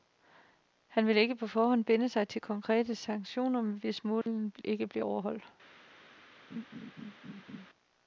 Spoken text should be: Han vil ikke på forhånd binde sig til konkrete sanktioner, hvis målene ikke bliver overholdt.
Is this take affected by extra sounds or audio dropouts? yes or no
yes